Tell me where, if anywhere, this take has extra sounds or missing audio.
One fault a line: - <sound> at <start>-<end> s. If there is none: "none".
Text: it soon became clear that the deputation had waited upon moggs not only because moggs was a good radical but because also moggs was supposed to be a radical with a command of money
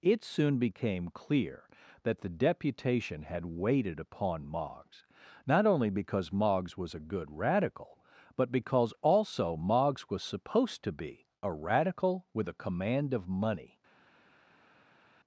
none